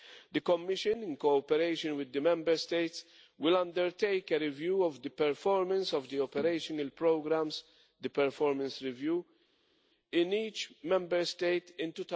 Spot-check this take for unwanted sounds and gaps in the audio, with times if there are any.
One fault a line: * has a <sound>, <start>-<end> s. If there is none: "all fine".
all fine